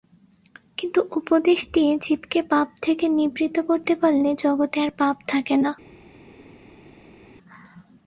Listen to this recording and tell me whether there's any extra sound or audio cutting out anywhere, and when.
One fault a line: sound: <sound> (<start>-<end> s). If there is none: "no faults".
no faults